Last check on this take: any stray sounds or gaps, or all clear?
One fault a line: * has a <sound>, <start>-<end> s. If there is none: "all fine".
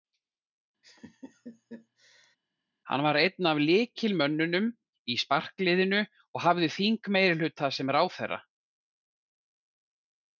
* has a laugh, 0.8-2.4 s